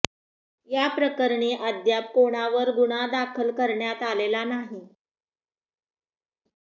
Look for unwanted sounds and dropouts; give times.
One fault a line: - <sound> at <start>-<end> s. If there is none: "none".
none